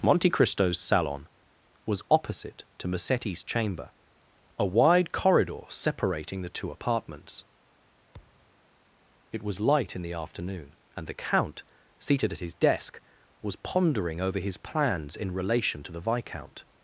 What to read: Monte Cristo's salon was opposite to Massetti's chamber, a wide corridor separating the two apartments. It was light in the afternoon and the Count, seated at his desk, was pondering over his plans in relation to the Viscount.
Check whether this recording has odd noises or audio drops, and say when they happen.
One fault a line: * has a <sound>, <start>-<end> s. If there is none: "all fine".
* has a thud, 8.1-8.5 s